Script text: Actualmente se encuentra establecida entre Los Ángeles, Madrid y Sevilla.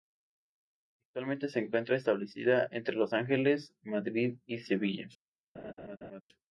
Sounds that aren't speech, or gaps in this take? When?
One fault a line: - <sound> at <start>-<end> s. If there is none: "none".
- laugh at 5.5-6.2 s